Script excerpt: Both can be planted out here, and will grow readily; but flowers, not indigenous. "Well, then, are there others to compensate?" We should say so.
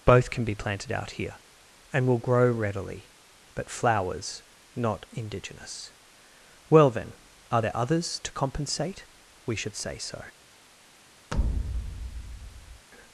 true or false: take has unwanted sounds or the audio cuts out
true